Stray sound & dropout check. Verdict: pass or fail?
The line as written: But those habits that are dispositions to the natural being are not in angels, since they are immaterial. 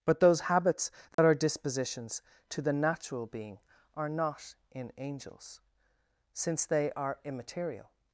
fail